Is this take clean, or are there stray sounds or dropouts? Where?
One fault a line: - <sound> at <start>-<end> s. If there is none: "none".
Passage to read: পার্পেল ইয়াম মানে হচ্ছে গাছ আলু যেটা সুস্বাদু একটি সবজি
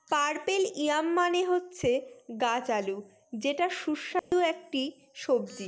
- dropout at 4.2-4.3 s